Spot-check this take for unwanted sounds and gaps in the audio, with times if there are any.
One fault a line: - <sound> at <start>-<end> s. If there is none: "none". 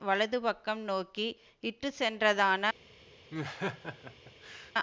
- laugh at 3.3-4.7 s